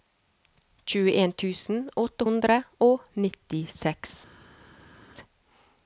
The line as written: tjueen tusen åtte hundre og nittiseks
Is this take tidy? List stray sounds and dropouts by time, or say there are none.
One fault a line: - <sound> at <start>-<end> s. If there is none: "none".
none